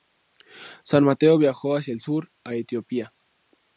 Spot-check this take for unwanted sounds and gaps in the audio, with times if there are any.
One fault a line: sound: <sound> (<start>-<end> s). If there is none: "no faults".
no faults